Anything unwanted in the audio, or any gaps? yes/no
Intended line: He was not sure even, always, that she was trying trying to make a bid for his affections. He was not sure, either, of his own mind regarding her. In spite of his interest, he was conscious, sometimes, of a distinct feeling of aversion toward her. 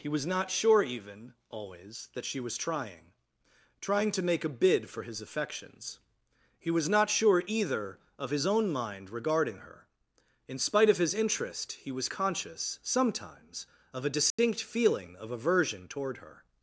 yes